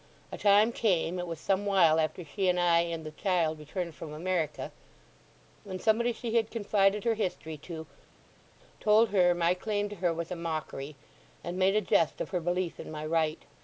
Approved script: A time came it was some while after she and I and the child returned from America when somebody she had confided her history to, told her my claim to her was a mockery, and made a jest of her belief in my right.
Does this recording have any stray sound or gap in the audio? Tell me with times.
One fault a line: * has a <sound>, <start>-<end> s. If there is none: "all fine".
all fine